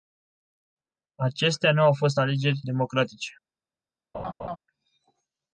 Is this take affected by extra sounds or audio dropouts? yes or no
yes